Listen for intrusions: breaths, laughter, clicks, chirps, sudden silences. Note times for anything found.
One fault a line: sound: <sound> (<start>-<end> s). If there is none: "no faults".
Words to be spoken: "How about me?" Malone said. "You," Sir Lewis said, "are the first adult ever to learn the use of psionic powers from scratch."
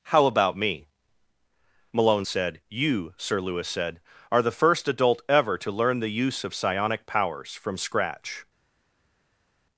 no faults